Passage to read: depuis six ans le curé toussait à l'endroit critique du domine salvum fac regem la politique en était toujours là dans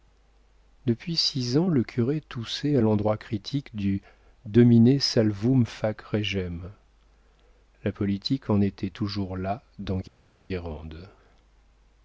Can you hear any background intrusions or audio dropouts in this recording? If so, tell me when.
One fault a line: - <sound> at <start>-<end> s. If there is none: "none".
none